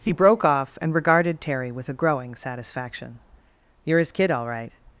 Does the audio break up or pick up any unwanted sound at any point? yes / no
no